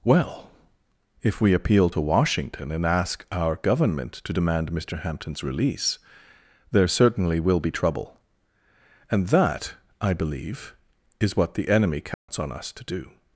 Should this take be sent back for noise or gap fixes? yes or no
yes